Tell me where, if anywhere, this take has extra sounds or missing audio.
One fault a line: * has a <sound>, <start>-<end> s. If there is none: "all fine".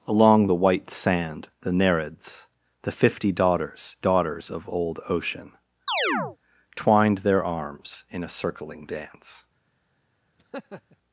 * has a chirp, 5.9-6.4 s
* has a laugh, 10.4-11.0 s